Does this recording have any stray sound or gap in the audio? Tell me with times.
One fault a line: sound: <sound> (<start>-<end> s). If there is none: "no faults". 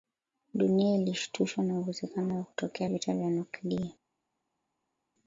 no faults